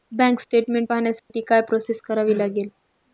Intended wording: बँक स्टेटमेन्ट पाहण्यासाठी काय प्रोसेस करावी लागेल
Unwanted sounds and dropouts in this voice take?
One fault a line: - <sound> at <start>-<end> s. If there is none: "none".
- dropout at 1.2-1.3 s